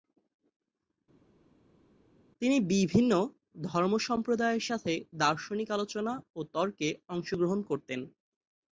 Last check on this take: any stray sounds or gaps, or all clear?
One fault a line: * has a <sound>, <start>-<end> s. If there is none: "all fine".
all fine